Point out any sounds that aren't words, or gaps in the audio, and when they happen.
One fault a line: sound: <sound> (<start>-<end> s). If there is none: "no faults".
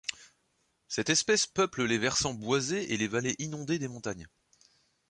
no faults